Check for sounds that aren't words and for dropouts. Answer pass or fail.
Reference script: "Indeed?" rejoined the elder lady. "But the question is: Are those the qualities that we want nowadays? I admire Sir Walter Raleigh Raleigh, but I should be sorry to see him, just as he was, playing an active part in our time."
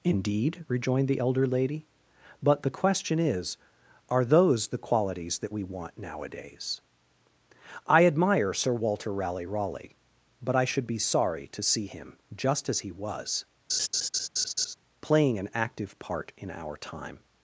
fail